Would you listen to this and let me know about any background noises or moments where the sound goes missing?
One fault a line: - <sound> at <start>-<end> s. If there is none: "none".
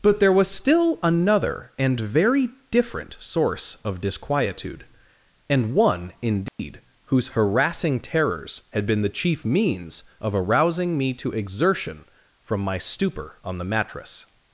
- dropout at 6.5-6.6 s